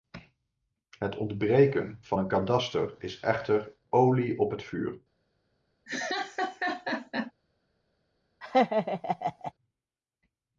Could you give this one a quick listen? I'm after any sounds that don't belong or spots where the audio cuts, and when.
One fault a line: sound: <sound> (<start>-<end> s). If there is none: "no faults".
sound: laugh (5.9-7.3 s)
sound: laugh (8.4-9.5 s)